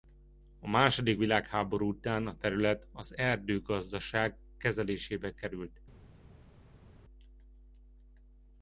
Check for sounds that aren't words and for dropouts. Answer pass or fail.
pass